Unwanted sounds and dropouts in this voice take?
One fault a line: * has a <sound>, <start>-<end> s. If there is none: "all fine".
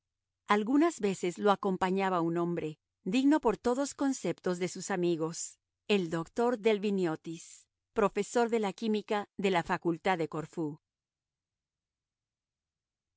all fine